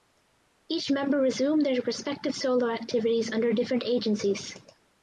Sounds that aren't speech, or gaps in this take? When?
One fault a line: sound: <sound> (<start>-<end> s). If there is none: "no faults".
no faults